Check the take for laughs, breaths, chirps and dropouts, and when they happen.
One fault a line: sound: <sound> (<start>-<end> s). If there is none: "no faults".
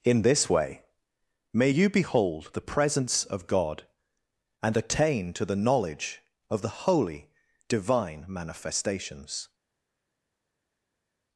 no faults